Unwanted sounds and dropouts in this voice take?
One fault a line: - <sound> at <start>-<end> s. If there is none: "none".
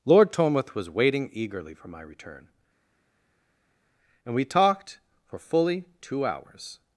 none